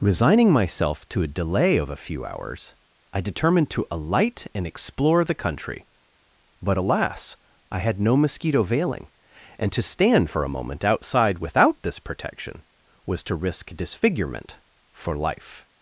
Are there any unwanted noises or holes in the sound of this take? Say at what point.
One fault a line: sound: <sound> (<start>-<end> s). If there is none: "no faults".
no faults